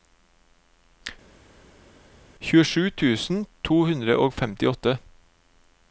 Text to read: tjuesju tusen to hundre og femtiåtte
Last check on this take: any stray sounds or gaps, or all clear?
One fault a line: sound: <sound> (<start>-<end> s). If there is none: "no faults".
no faults